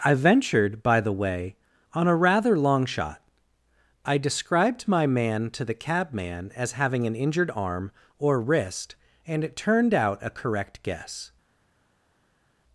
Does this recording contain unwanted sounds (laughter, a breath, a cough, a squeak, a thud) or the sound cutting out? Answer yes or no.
no